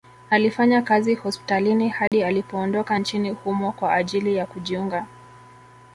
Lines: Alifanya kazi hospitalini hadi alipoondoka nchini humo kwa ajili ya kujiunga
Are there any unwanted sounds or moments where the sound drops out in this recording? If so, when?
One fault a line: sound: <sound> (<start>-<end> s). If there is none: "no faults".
sound: dropout (2.1-2.1 s)